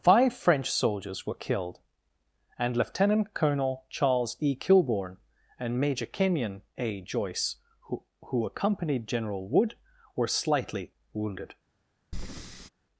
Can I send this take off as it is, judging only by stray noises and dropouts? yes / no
no